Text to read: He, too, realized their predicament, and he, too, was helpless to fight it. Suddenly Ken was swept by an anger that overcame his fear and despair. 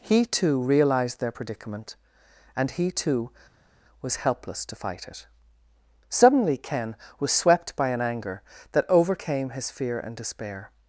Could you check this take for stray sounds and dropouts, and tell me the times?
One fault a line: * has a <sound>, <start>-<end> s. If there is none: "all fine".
all fine